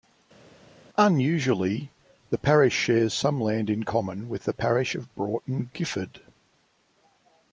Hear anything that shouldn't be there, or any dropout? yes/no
no